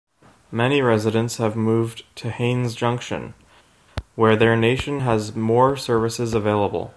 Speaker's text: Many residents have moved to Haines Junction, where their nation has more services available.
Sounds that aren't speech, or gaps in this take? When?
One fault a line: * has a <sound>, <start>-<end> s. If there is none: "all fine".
all fine